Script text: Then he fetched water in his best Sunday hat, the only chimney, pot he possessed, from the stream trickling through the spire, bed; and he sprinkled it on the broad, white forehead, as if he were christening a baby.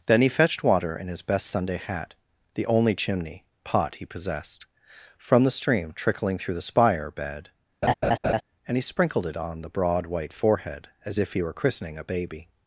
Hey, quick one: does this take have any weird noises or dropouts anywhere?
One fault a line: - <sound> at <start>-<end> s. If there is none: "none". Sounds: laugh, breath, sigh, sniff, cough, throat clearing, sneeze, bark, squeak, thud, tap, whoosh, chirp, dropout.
- laugh at 7.8-8.4 s